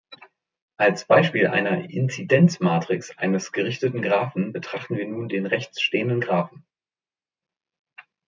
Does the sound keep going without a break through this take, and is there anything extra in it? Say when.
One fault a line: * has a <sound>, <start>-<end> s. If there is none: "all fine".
all fine